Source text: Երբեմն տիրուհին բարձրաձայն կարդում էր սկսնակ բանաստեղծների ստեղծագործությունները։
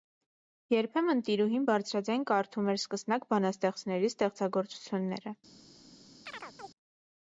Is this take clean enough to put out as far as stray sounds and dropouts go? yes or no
no